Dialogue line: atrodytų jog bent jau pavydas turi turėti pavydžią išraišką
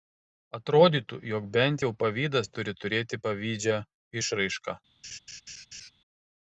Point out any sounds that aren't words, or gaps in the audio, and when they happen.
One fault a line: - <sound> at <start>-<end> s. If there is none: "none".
- laugh at 5.0-5.9 s